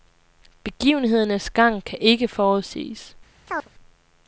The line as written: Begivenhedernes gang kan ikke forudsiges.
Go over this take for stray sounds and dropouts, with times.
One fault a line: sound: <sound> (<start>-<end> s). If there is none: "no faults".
sound: chirp (3.5-3.7 s)